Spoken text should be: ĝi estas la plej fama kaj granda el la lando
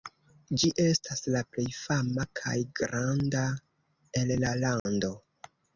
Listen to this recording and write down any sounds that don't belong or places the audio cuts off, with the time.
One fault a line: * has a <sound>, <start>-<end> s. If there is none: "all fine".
* has a dropout, 4.8-4.9 s